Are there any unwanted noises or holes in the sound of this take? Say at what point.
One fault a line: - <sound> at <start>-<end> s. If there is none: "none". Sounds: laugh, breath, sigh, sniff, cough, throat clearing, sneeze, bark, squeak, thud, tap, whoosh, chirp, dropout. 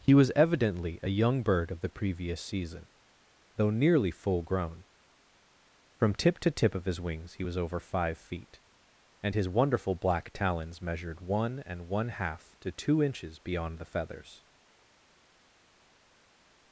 none